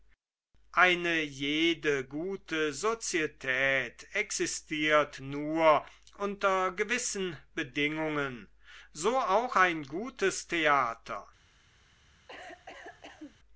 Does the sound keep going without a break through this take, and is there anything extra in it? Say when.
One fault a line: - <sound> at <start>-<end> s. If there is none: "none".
- cough at 12.3-13.4 s